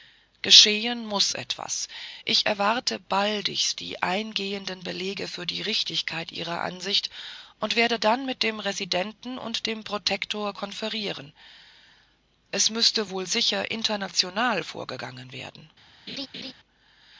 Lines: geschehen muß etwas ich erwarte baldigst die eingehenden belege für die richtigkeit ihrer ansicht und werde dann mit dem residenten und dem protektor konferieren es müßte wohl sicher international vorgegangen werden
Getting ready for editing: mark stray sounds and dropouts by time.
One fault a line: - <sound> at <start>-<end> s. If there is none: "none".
- laugh at 16.1-16.5 s